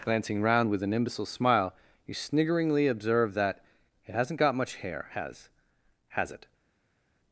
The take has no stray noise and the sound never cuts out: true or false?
true